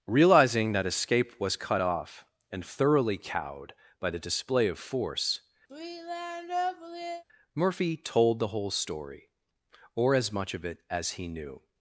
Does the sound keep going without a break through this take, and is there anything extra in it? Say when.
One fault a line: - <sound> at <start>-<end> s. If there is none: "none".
- sigh at 5.7-7.2 s